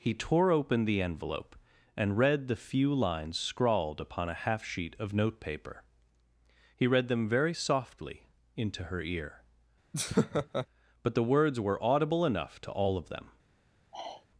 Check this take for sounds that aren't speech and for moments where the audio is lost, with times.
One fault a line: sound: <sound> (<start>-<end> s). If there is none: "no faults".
sound: laugh (9.9-10.7 s)
sound: sigh (13.9-14.3 s)